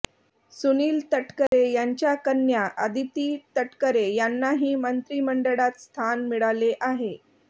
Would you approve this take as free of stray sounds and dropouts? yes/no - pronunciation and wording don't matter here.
no